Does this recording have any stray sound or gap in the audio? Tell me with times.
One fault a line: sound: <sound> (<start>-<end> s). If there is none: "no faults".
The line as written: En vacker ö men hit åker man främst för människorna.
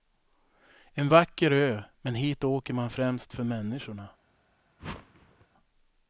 sound: whoosh (4.8-5.5 s)